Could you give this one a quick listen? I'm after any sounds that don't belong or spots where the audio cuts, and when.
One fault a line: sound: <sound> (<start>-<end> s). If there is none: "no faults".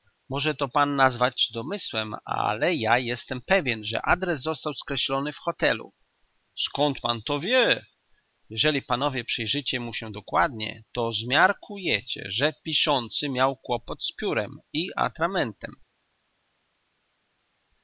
no faults